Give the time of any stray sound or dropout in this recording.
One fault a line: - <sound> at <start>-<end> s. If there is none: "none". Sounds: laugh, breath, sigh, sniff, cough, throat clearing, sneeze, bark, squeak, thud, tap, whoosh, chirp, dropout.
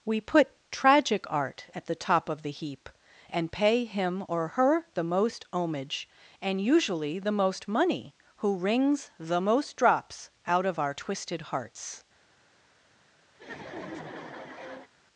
- laugh at 13.3-14.9 s